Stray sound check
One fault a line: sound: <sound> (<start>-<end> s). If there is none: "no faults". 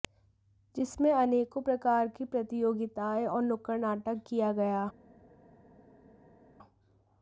no faults